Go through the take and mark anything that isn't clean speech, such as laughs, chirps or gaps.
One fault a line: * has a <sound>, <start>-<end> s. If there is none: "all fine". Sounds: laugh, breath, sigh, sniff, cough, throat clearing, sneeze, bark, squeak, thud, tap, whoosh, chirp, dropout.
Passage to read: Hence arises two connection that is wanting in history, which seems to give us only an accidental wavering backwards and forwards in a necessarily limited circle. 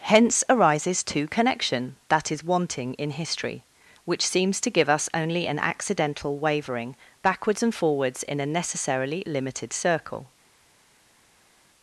all fine